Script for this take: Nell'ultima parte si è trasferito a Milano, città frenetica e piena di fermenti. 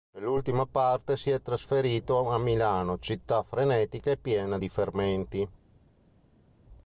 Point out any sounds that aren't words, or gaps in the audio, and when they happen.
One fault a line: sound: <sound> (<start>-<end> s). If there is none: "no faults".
no faults